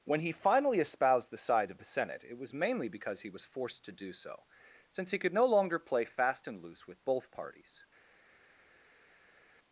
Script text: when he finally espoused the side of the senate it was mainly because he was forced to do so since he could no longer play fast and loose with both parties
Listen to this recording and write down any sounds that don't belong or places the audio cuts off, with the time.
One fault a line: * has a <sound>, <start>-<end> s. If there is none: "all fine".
all fine